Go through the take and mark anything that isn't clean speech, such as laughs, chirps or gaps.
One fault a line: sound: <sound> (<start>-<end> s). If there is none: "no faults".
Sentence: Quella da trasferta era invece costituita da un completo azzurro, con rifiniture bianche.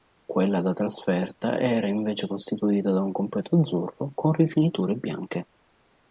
no faults